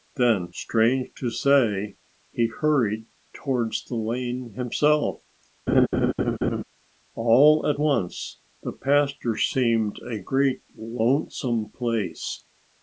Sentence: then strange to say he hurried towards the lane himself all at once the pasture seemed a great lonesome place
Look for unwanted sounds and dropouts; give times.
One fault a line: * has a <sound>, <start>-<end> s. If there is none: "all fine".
* has a laugh, 5.7-6.6 s